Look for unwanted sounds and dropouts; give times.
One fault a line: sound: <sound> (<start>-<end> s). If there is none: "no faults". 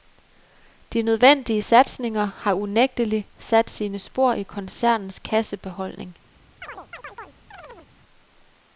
sound: chirp (6.6-7.9 s)